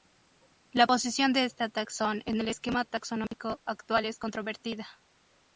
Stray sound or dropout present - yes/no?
yes